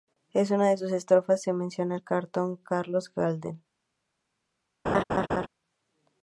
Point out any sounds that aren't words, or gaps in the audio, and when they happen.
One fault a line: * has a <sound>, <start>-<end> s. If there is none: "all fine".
* has a laugh, 4.9-5.5 s